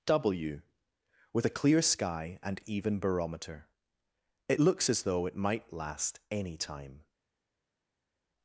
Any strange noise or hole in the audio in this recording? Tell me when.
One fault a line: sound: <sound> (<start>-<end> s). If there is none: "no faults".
no faults